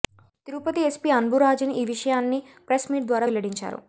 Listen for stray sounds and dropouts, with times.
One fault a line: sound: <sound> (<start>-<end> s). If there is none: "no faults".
no faults